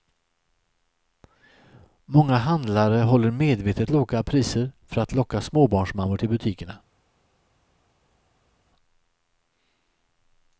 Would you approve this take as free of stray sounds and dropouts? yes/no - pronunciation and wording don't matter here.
yes